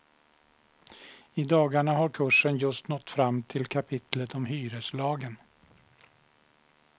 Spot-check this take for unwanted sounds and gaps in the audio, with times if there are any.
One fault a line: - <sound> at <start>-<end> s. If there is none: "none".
none